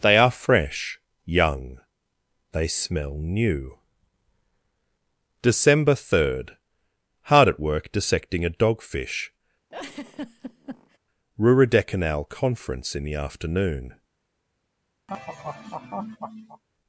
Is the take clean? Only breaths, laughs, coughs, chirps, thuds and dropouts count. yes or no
no